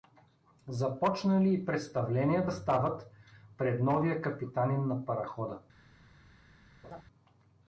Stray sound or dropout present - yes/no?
yes